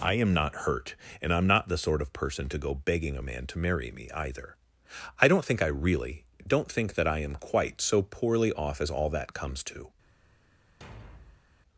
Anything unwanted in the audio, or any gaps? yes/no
yes